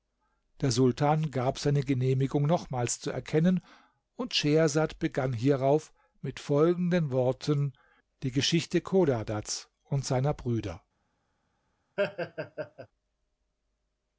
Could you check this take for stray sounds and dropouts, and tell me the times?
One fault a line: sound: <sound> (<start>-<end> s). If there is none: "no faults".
sound: laugh (12.0-12.9 s)